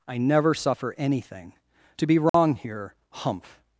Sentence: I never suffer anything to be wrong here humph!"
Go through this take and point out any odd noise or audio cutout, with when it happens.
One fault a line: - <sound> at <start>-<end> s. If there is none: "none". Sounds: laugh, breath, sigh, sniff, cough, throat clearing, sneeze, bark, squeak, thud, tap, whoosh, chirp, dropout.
- dropout at 2.3-2.3 s